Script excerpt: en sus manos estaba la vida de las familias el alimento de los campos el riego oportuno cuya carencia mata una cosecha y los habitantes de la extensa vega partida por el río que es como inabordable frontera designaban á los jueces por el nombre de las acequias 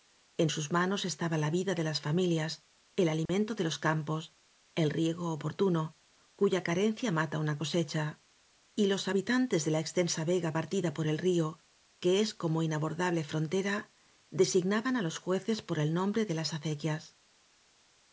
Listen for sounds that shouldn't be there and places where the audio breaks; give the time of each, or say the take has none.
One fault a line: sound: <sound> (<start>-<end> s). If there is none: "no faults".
sound: dropout (3.3-3.3 s)